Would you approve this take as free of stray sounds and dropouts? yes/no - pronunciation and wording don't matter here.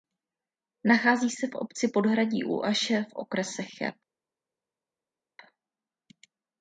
yes